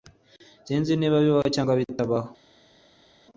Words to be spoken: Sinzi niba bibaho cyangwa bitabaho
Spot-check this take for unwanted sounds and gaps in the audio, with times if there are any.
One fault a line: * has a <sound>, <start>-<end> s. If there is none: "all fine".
all fine